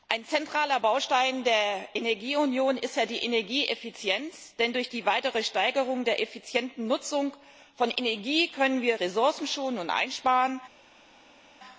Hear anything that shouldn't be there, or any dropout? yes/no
no